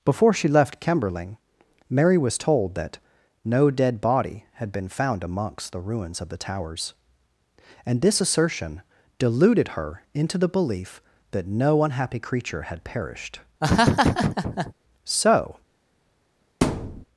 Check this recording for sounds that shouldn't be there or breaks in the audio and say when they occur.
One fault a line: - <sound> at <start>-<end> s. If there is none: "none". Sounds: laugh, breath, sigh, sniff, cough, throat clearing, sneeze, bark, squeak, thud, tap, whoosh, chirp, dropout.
- laugh at 13.6-14.7 s
- thud at 16.6-17.0 s